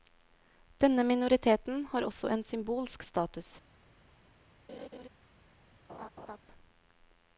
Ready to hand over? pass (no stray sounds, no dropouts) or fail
fail